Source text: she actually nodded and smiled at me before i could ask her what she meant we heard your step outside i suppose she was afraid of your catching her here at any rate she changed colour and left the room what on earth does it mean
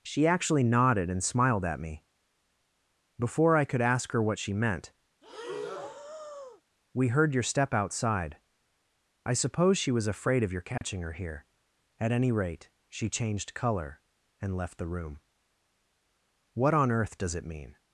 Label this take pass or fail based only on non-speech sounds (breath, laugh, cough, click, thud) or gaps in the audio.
fail